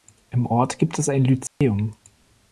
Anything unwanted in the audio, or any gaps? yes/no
yes